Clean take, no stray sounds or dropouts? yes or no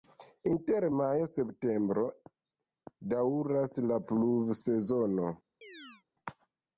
no